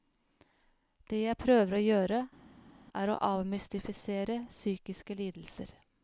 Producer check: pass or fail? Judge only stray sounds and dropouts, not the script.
pass